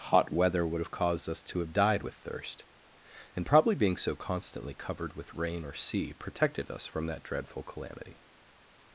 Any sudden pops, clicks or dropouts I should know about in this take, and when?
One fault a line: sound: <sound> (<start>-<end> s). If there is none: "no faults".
no faults